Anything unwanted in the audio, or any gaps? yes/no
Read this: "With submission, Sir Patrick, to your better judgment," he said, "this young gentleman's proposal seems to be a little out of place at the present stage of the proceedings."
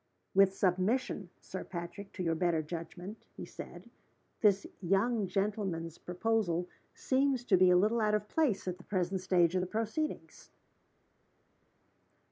no